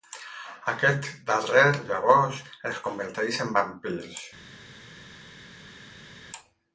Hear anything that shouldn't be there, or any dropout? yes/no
no